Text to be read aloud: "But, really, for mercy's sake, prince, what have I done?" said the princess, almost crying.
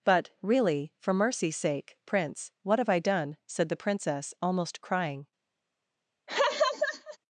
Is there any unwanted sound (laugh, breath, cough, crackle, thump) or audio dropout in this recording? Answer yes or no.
yes